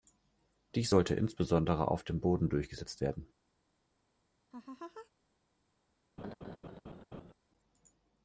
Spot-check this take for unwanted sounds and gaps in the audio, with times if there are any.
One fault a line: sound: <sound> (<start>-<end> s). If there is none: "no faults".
sound: laugh (4.5-5.1 s)
sound: laugh (6.2-7.3 s)